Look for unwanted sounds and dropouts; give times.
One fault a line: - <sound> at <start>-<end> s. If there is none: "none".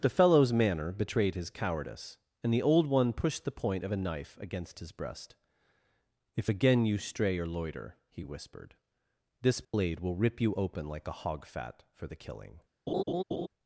- dropout at 9.6-9.7 s
- laugh at 12.9-13.5 s